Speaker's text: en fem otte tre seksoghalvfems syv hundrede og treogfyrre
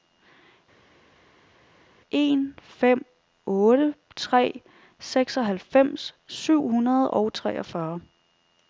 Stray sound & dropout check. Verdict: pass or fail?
pass